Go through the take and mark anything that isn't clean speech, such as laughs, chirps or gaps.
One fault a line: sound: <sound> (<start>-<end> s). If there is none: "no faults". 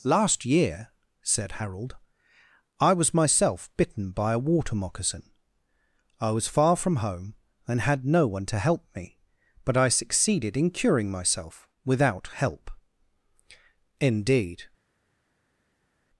no faults